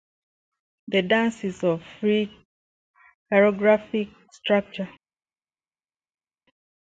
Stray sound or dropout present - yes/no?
no